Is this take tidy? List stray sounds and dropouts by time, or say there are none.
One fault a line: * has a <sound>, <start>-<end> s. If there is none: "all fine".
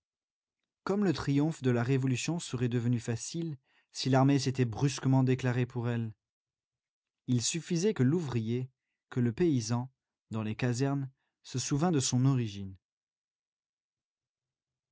all fine